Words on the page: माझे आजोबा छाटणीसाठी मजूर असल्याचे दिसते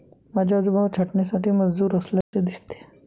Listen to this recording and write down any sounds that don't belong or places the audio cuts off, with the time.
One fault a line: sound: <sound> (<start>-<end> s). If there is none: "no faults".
sound: dropout (2.2-2.3 s)